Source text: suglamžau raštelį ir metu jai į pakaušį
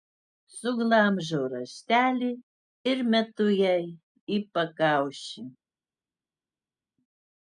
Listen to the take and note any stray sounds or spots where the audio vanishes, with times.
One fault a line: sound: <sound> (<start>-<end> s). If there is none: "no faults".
no faults